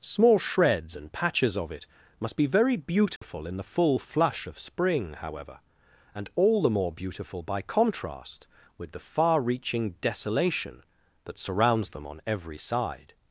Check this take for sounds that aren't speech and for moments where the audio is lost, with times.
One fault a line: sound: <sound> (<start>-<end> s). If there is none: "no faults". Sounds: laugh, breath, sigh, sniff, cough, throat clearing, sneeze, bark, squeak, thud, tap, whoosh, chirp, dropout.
sound: dropout (3.2-3.2 s)